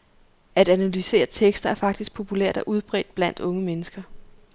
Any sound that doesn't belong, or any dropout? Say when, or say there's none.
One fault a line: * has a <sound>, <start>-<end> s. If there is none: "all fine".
all fine